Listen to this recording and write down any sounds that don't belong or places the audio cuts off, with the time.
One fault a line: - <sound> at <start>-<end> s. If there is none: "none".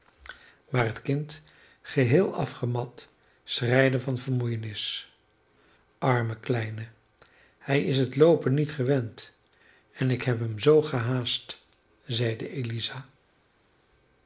none